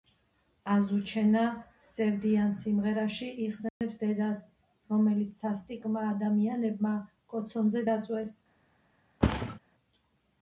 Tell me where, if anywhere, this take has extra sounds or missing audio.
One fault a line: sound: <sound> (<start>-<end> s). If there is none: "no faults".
sound: dropout (3.7-3.8 s)
sound: thud (9.2-9.6 s)